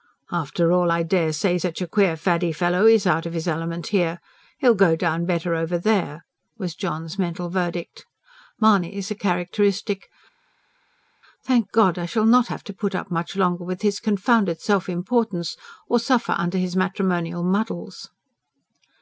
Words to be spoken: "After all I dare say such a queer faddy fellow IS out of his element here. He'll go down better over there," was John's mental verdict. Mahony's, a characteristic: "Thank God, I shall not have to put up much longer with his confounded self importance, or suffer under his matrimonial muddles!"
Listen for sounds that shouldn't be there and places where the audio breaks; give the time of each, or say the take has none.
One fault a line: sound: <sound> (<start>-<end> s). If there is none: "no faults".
no faults